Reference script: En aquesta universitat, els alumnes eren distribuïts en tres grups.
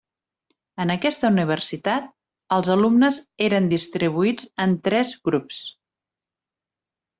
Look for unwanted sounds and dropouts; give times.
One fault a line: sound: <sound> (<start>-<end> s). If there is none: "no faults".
no faults